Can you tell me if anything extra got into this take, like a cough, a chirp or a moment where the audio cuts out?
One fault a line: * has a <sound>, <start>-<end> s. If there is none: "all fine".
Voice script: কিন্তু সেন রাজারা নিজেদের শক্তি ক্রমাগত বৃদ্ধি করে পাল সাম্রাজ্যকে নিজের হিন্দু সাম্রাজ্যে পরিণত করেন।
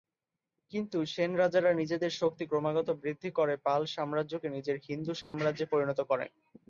* has a dropout, 5.2-5.3 s